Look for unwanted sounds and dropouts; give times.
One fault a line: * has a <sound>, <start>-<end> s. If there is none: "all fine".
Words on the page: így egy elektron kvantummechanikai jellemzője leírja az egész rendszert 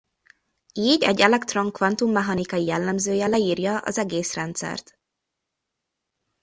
all fine